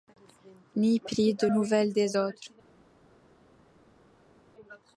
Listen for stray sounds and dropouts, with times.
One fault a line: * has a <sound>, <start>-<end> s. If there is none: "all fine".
all fine